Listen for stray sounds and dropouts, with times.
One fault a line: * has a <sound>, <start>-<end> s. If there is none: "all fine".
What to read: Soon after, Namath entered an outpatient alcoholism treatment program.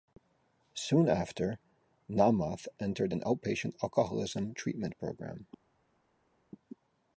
all fine